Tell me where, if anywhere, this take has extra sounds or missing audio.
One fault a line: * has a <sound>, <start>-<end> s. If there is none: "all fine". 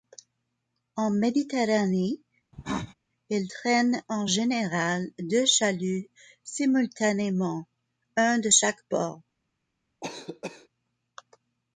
* has a cough, 2.5-2.9 s
* has a cough, 10.0-10.7 s